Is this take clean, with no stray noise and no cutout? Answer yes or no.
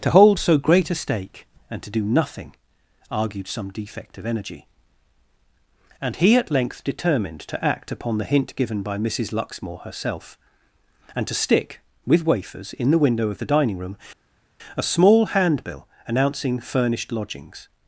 yes